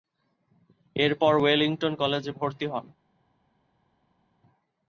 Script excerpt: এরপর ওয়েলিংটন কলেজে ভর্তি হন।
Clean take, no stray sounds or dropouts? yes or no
yes